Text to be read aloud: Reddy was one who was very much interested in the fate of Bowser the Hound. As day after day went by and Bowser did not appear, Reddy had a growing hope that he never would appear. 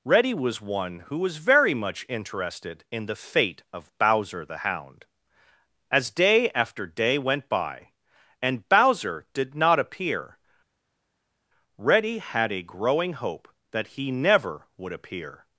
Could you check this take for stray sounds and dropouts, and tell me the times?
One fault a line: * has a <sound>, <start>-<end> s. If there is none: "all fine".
all fine